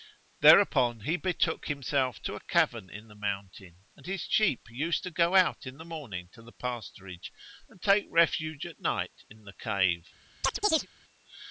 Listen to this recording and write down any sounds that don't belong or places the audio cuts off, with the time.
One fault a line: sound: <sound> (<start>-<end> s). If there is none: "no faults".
sound: chirp (10.4-10.9 s)